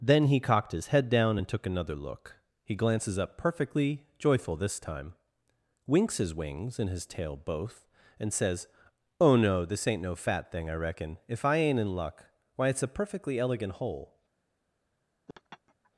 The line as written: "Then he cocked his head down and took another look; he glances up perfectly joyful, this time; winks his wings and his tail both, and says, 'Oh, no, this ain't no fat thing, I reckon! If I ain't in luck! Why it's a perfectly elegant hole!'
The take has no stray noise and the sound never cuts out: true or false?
false